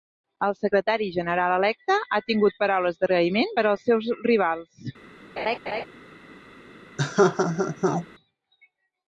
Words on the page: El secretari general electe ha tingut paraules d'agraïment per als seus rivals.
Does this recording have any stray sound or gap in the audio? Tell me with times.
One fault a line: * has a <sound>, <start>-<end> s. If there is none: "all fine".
* has a laugh, 5.4-5.9 s
* has a laugh, 7.0-8.1 s